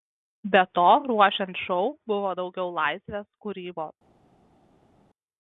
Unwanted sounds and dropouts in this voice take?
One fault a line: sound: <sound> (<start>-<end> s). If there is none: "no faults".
no faults